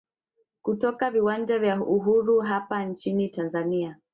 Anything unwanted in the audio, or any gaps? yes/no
no